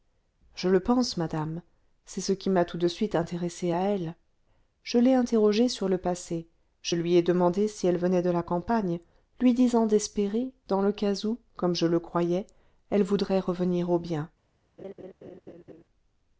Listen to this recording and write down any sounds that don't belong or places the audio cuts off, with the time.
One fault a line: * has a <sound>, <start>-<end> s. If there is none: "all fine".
* has a laugh, 14.8-15.8 s